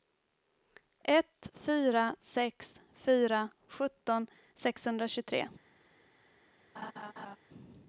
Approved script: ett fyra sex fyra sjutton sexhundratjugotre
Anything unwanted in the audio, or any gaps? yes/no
yes